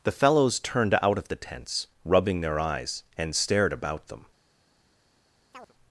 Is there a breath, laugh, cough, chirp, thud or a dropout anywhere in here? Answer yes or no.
yes